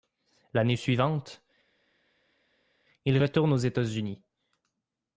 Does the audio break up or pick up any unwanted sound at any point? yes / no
no